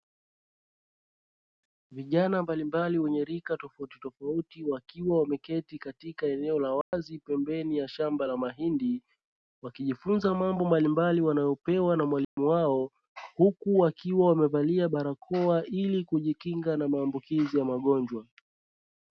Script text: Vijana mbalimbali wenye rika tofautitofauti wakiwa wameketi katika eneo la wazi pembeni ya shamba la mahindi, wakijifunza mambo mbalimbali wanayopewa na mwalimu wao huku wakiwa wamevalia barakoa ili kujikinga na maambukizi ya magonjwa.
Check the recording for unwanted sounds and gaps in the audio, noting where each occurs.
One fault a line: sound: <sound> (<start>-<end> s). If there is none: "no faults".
sound: dropout (6.8-6.9 s)
sound: dropout (12.2-12.4 s)